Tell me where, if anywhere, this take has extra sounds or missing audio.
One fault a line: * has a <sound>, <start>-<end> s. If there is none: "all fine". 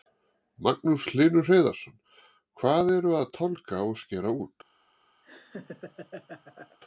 * has a laugh, 5.2-6.8 s